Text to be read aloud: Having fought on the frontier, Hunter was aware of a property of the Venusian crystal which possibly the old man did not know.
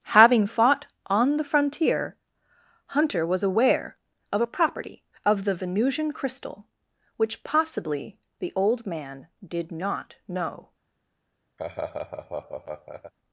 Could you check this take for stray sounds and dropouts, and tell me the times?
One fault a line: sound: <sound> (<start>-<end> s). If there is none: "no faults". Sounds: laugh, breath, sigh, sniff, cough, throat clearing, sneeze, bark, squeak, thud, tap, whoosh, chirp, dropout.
sound: laugh (11.6-13.1 s)